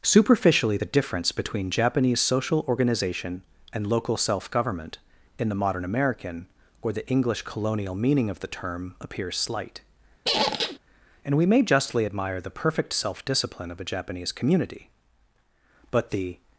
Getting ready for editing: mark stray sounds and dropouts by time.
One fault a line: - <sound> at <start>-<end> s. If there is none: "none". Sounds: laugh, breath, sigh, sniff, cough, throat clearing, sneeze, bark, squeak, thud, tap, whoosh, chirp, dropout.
- squeak at 10.2-10.8 s